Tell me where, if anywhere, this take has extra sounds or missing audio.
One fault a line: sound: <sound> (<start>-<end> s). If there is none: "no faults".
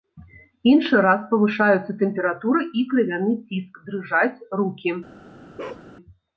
sound: bark (5.6-5.9 s)